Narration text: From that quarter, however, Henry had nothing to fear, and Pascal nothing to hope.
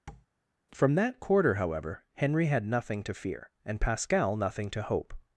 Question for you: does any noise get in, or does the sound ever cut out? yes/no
yes